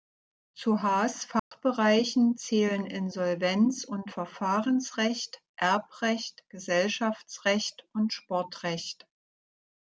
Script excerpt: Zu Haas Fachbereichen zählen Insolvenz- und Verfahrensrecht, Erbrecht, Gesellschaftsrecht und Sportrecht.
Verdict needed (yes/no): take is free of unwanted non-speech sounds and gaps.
no